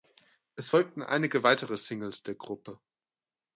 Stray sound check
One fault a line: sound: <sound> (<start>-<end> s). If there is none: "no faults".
no faults